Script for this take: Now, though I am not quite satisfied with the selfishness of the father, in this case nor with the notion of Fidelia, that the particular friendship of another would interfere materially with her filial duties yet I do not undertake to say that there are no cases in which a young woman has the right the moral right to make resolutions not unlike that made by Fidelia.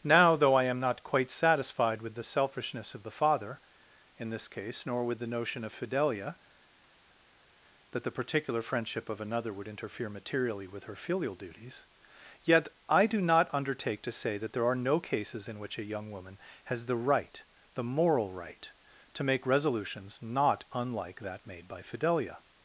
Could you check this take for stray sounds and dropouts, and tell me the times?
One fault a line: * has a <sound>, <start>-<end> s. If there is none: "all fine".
all fine